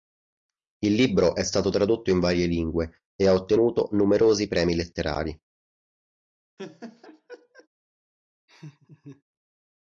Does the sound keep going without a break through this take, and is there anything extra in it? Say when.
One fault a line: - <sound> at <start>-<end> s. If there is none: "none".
- laugh at 6.6-7.7 s
- laugh at 8.5-9.2 s